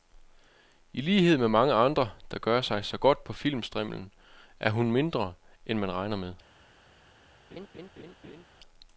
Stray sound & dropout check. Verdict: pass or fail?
fail